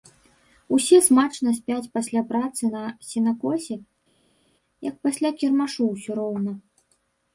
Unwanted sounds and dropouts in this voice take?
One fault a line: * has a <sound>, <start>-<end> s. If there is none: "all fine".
all fine